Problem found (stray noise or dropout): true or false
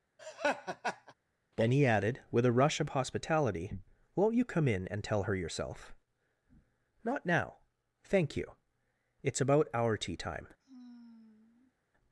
true